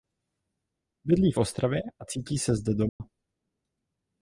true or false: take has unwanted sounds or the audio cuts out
true